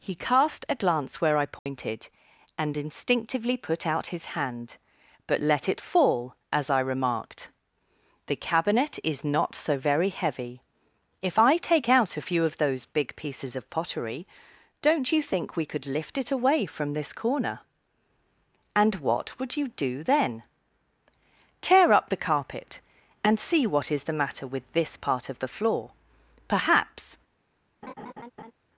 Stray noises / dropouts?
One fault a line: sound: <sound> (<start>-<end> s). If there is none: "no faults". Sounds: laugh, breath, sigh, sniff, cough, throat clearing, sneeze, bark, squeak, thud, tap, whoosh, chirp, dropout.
sound: dropout (1.6-1.7 s)
sound: laugh (27.8-28.5 s)